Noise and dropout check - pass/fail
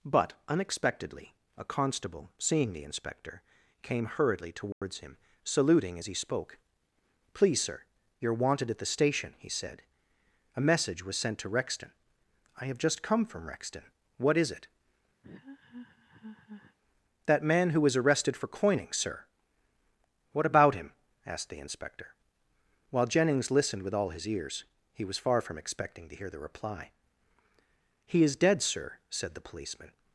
fail